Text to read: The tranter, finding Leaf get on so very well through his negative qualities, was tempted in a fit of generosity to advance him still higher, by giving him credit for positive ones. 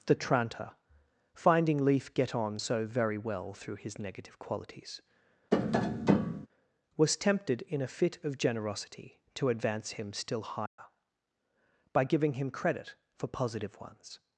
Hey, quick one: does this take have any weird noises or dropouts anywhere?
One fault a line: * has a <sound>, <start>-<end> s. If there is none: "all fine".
* has a tap, 5.5-6.5 s
* has a dropout, 10.7-10.8 s